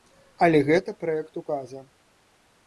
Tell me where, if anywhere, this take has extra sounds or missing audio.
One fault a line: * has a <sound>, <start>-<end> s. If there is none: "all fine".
all fine